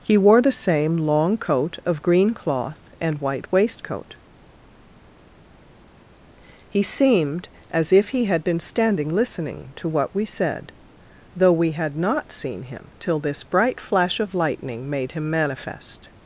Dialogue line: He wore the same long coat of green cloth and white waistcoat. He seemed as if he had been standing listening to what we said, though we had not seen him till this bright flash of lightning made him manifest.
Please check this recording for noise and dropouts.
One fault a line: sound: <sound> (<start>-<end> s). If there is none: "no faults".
no faults